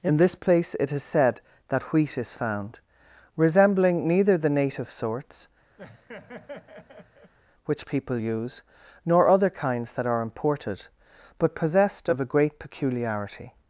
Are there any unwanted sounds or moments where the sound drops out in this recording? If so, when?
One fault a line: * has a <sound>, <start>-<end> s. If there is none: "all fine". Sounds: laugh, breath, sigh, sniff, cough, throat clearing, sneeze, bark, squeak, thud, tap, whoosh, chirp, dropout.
* has a laugh, 5.8-7.3 s